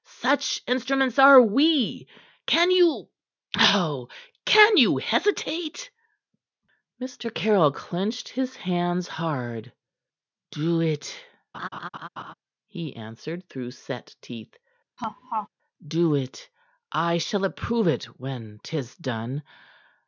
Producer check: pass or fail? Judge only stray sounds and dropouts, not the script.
fail